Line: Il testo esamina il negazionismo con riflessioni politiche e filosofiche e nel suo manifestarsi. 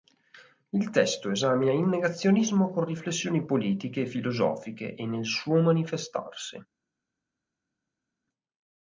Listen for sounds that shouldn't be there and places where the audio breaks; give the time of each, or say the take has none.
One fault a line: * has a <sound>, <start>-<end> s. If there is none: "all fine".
all fine